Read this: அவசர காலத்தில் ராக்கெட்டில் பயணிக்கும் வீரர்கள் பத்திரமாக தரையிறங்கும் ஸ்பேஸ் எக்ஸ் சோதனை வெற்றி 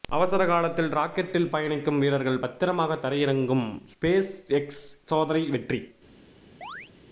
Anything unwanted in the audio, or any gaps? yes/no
yes